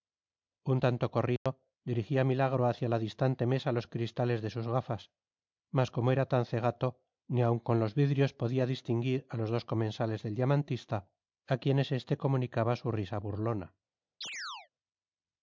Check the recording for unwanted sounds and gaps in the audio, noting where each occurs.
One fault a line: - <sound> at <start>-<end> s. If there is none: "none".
- dropout at 1.4-1.5 s
- chirp at 14.2-14.7 s